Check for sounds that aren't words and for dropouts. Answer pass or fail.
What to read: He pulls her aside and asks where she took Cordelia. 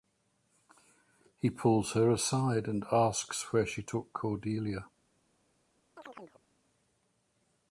fail